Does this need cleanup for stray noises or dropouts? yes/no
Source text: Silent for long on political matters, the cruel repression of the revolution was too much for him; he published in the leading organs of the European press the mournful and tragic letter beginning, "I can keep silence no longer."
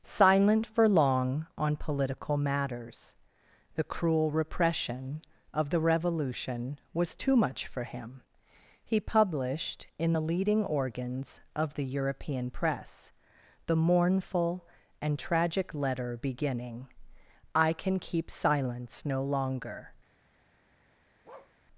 yes